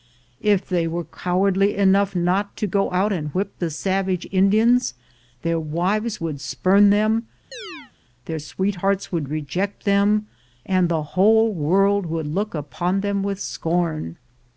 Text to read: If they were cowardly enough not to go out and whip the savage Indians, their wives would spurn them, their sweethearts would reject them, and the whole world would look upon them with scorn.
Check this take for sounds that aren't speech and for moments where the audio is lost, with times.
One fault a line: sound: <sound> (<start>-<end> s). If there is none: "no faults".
sound: chirp (7.5-7.9 s)